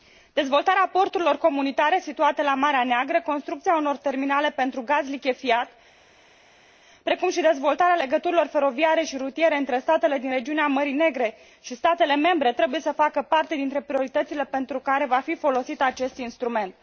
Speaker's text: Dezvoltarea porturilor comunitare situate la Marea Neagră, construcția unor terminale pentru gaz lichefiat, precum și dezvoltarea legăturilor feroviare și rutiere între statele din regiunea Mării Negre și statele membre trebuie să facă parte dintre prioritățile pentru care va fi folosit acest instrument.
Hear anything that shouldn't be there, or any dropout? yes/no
no